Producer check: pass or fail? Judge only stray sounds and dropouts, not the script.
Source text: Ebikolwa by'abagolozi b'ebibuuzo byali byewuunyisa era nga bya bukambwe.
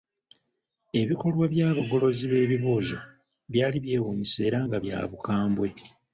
pass